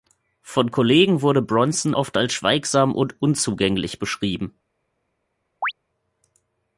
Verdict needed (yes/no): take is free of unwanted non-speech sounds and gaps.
no